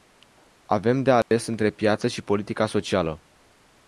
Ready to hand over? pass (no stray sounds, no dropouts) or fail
fail